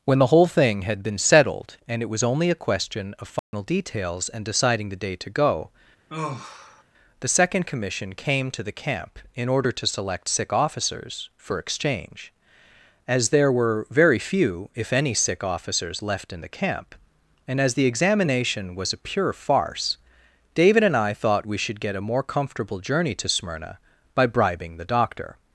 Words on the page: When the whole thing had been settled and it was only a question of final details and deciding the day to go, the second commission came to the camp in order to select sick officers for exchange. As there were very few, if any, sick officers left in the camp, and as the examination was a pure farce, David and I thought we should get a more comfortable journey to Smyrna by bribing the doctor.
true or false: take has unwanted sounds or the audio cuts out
true